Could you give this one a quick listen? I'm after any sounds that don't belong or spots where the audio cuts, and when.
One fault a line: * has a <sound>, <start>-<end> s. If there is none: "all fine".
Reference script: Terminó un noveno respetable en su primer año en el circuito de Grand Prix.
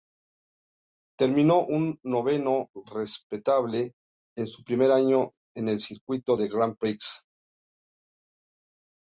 all fine